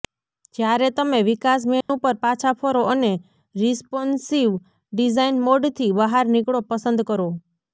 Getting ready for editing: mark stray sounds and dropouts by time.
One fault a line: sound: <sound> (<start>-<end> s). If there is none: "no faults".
sound: dropout (1.8-1.9 s)